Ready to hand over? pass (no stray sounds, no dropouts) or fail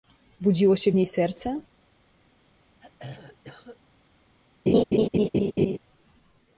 fail